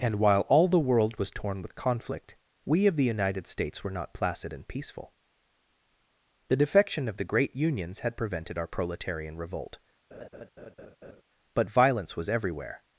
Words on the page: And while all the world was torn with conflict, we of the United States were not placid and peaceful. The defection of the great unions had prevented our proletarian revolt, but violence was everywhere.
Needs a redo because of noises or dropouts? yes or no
yes